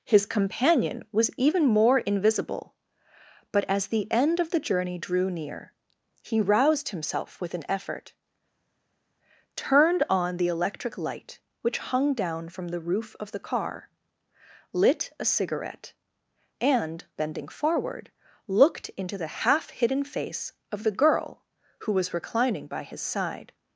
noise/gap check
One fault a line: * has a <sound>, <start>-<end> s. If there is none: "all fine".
all fine